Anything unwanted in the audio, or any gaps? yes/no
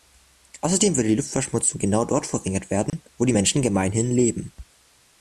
yes